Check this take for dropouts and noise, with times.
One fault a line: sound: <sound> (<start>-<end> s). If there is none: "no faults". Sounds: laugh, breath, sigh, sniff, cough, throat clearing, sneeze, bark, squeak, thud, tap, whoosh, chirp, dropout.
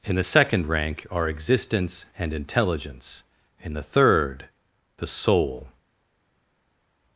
no faults